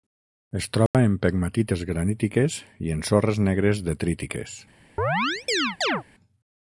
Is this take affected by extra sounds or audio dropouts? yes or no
yes